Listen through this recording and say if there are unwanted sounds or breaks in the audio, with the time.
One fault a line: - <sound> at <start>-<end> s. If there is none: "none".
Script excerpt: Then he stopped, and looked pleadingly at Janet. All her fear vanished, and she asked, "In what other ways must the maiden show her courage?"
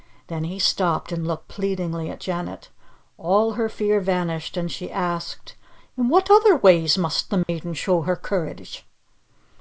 - dropout at 7.4-7.5 s